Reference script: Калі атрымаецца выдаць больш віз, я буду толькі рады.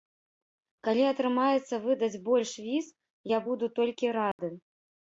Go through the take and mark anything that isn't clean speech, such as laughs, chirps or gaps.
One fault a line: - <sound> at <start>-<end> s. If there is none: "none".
- dropout at 4.3-4.4 s